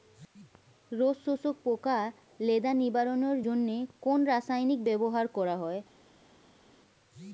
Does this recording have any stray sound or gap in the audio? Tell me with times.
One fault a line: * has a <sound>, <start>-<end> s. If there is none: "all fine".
all fine